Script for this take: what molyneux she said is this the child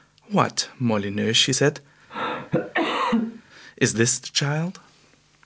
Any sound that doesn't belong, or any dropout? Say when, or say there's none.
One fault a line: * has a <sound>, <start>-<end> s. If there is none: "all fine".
* has a cough, 2.1-3.4 s